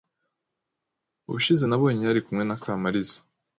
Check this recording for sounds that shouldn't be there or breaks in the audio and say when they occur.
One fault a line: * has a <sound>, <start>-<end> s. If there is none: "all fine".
all fine